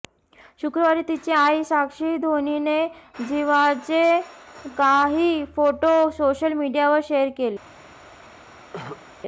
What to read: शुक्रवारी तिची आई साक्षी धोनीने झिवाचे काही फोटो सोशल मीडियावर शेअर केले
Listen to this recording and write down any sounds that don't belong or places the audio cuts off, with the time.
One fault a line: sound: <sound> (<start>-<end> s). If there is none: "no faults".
sound: throat clearing (8.7-9.1 s)